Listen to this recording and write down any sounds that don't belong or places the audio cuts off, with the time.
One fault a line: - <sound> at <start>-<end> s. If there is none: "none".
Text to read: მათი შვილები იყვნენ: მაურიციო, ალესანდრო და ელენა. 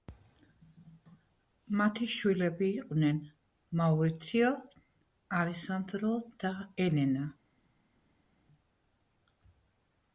none